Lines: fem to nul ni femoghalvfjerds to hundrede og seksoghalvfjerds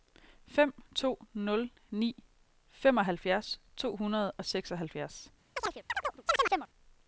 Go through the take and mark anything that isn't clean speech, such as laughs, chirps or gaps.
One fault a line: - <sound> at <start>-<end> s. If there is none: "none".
- chirp at 5.6-6.7 s